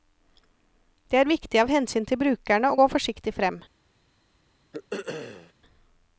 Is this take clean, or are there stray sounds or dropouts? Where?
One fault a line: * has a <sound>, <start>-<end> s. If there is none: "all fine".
* has a throat clearing, 4.7-5.5 s